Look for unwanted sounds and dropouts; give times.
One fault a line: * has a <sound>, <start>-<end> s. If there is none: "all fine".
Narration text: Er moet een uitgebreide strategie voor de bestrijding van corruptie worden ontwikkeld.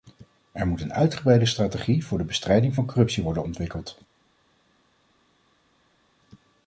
all fine